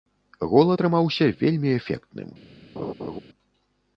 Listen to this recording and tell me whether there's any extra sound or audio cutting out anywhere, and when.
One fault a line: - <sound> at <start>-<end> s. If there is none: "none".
- laugh at 2.8-3.2 s